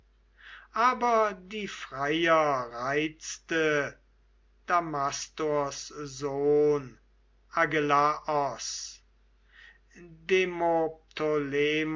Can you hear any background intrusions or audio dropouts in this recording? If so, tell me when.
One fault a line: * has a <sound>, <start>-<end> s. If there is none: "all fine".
all fine